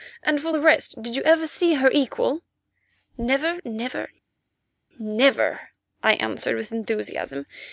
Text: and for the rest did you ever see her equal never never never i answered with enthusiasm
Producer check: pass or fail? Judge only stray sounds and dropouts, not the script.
pass